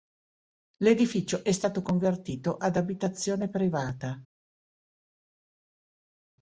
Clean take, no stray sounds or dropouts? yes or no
yes